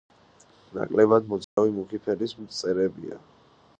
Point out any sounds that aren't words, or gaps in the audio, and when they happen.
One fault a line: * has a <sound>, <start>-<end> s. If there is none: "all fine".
* has a dropout, 1.4-1.6 s